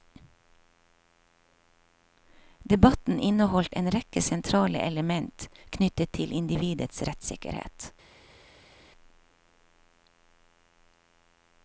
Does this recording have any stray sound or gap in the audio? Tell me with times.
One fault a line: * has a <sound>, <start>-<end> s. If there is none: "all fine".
all fine